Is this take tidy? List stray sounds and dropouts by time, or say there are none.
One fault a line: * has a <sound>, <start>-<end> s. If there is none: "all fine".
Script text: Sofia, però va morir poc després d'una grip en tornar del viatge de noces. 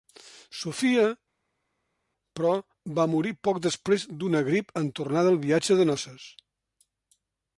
all fine